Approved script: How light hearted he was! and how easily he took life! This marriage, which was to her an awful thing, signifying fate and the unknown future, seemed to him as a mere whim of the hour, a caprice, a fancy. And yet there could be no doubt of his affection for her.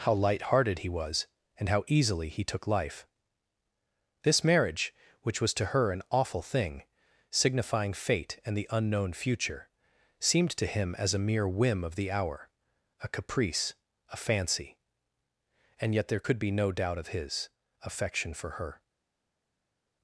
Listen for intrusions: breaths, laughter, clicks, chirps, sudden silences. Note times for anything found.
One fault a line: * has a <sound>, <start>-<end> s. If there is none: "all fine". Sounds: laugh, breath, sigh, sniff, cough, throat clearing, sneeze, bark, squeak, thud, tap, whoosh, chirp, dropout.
all fine